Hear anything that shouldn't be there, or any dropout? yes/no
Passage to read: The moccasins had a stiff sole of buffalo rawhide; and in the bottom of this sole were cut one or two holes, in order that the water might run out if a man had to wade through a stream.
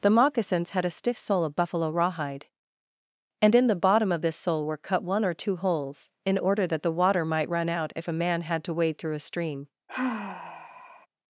yes